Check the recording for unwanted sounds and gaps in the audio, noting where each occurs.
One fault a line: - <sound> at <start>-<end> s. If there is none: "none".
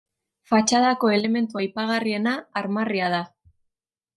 none